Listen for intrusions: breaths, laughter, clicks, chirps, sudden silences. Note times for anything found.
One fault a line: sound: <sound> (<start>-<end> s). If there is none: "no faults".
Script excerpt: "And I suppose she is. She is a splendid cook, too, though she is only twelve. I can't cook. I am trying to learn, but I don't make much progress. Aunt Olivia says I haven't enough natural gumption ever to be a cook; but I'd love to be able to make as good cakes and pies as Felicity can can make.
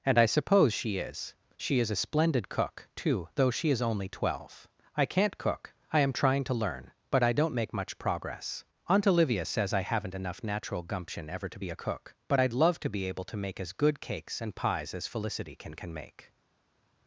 no faults